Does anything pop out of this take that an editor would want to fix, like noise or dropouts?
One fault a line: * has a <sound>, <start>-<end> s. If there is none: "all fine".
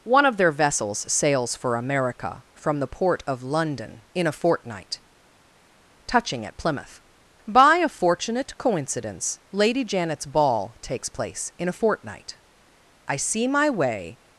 all fine